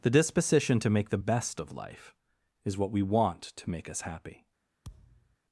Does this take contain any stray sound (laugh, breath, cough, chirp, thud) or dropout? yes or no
yes